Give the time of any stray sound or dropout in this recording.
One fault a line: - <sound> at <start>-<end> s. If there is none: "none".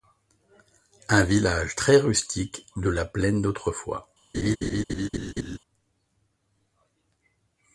- laugh at 4.3-5.6 s